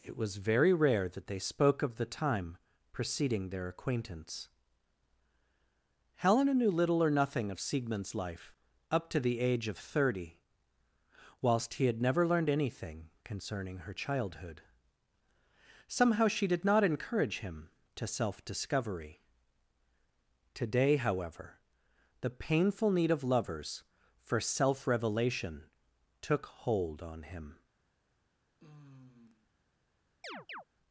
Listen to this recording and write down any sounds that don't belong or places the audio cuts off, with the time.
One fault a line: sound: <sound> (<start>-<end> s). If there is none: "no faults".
sound: sigh (28.6-29.5 s)
sound: chirp (30.2-30.6 s)